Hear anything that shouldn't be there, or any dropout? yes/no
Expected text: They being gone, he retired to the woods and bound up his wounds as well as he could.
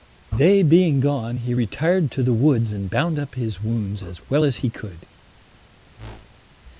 yes